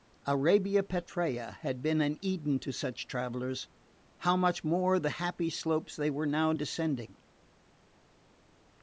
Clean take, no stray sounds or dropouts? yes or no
yes